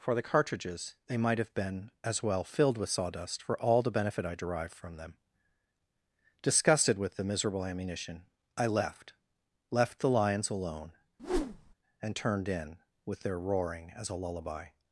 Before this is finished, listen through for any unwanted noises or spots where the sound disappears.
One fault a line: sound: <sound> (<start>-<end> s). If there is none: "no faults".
sound: whoosh (11.2-11.7 s)